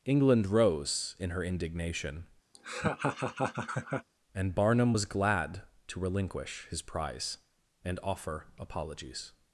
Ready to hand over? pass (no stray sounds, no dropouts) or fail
fail